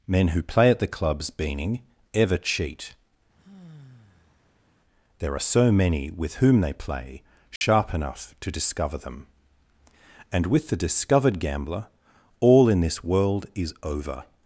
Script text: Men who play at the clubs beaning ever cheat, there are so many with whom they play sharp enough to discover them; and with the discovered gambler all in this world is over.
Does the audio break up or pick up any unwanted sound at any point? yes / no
yes